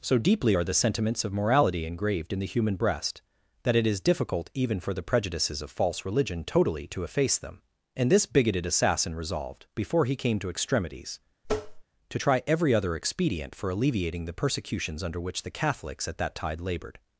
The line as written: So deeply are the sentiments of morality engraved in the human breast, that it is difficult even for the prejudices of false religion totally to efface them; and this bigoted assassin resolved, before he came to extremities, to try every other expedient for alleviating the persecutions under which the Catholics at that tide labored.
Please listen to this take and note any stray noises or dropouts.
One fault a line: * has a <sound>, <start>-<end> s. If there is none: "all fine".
* has a tap, 11.4-11.8 s